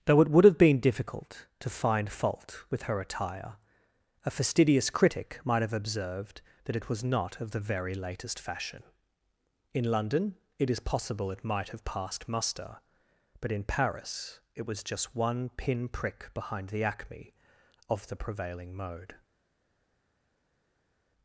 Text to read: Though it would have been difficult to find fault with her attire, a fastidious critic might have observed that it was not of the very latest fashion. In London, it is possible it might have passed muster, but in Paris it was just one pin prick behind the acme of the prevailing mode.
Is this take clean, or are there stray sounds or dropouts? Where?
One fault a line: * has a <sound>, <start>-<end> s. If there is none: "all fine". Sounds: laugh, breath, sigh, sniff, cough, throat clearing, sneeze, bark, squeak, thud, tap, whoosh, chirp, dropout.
all fine